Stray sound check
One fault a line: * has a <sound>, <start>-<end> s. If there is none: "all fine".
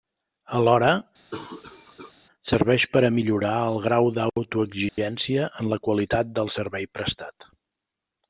* has a cough, 1.3-2.1 s
* has a dropout, 4.9-5.0 s